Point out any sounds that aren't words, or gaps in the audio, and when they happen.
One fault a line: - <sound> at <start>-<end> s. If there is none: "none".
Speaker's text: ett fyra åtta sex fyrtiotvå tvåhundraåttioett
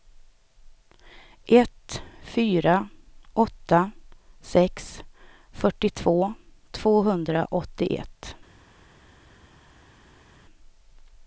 none